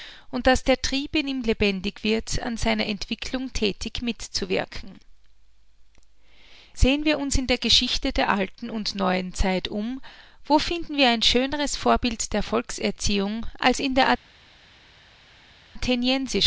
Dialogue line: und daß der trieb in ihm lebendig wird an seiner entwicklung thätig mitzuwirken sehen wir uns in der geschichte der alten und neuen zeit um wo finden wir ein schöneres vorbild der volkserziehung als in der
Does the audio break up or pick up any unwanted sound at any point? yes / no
no